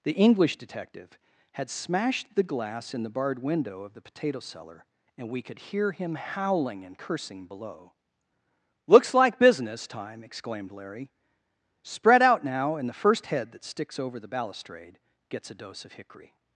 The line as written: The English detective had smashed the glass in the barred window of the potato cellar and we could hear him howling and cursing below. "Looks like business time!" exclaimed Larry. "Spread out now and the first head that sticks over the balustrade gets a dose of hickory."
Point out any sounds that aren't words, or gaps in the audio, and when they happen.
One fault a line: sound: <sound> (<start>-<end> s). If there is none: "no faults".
no faults